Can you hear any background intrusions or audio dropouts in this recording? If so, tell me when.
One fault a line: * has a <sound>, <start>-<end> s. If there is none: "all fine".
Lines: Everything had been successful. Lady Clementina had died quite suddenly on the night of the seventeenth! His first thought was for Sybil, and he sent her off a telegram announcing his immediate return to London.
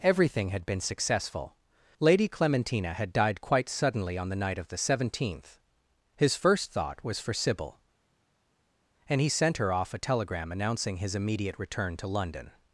all fine